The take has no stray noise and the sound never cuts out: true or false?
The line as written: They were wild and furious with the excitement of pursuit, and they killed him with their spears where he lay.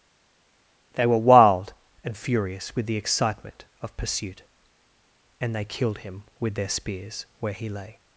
true